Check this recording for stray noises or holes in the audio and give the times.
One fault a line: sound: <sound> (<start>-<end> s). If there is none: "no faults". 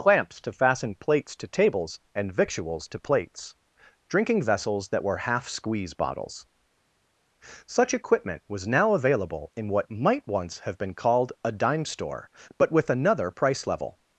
no faults